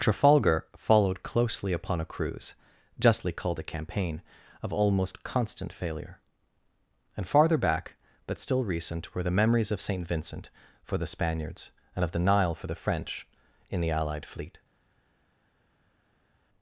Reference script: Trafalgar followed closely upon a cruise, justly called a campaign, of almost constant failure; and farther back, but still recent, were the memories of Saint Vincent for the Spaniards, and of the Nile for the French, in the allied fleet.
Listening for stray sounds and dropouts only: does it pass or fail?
pass